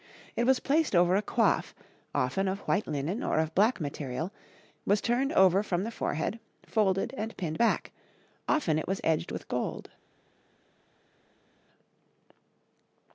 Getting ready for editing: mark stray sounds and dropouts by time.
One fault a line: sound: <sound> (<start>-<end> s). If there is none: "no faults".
no faults